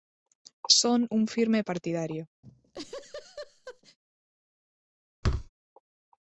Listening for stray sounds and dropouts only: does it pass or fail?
fail